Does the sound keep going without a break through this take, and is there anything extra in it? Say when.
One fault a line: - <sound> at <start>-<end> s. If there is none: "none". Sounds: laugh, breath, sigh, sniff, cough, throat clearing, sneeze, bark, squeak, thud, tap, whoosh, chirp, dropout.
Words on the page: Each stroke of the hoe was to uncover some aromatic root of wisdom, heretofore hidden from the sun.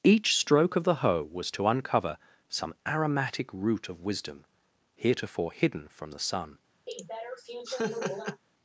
- laugh at 6.9-8.4 s